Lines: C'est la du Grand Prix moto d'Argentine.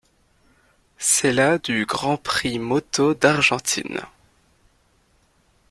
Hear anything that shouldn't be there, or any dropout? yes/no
no